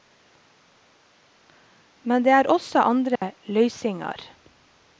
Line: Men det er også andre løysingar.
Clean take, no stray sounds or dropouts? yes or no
no